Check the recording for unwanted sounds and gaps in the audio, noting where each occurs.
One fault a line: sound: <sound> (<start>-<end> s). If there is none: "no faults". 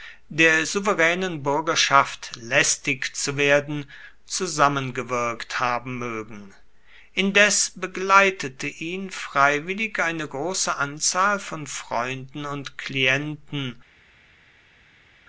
no faults